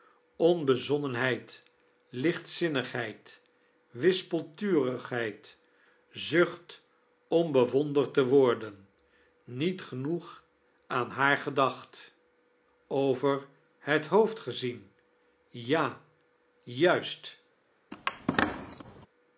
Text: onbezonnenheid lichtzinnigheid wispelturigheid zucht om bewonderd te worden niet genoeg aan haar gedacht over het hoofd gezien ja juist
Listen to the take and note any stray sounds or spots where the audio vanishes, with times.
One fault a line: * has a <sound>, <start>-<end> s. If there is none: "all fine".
* has a squeak, 17.9-19.1 s